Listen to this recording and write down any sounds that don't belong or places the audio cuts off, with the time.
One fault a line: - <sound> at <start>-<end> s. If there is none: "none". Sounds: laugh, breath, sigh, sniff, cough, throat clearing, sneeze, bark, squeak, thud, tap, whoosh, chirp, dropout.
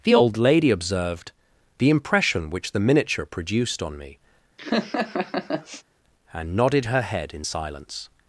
- laugh at 4.6-5.8 s